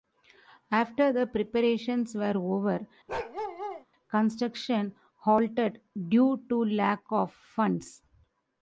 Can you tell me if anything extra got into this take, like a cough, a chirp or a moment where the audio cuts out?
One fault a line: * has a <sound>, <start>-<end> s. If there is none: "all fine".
* has a bark, 3.1-3.9 s